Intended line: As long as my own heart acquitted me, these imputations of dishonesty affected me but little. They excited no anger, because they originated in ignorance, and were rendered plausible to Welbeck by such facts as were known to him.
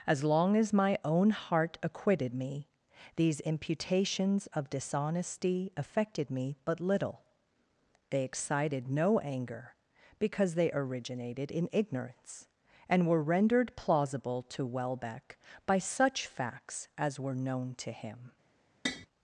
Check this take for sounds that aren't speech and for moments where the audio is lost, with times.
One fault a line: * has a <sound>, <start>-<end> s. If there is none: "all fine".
* has a tap, 18.9-19.1 s